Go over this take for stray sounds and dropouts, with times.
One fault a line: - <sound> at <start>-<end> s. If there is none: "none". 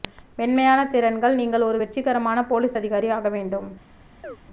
- chirp at 4.2-4.4 s